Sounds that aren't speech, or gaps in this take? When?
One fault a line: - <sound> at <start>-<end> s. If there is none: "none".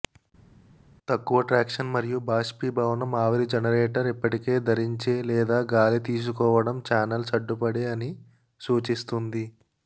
none